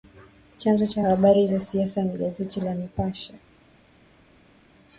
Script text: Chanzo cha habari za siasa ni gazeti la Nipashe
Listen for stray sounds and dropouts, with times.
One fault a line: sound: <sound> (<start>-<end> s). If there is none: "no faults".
no faults